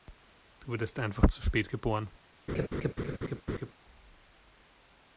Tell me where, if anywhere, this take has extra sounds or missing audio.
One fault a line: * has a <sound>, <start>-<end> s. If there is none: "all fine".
* has a laugh, 2.5-3.7 s